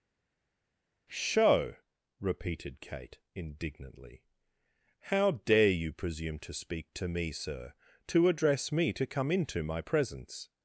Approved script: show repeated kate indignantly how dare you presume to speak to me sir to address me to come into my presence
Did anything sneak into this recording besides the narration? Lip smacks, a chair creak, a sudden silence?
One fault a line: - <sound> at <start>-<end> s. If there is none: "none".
none